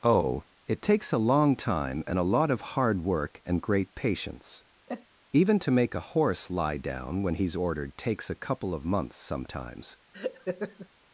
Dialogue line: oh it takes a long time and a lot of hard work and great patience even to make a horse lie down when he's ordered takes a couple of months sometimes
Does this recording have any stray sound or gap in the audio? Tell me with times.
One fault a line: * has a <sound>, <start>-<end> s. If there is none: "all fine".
* has a sneeze, 4.9-5.1 s
* has a laugh, 10.1-10.9 s